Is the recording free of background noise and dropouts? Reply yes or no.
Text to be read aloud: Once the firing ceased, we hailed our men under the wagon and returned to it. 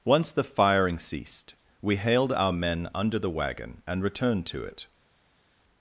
yes